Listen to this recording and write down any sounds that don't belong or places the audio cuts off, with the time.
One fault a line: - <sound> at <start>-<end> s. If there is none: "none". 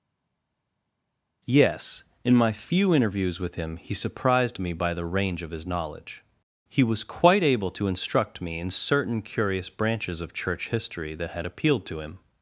none